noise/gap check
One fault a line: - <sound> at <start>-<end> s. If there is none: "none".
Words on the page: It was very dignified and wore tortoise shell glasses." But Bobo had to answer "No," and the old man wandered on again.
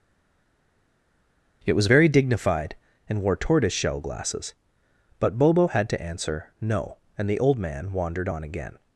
none